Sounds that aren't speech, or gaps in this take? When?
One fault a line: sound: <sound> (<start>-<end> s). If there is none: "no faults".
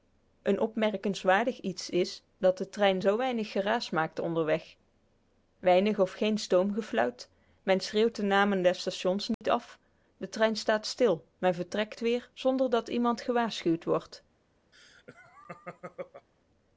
sound: dropout (9.3-9.4 s)
sound: laugh (14.7-16.3 s)